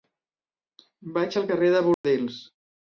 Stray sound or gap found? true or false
true